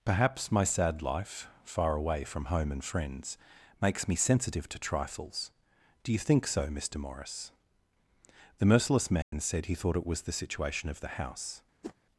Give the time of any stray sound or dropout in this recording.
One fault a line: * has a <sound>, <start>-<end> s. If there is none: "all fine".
* has a dropout, 9.2-9.3 s
* has a whoosh, 11.8-11.9 s